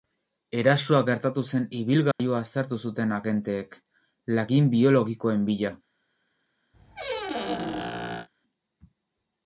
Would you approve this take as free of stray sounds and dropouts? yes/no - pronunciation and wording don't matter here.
no